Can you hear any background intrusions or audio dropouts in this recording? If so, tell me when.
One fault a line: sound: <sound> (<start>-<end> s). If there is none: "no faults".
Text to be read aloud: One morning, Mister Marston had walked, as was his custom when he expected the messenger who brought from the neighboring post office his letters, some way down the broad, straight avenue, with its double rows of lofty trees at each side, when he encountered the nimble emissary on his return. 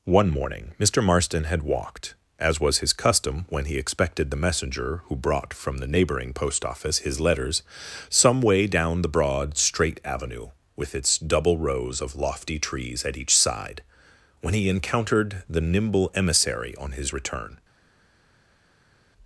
no faults